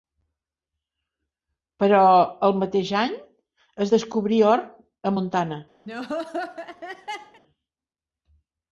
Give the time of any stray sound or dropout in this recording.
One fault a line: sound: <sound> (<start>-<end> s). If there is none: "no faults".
sound: laugh (5.9-7.4 s)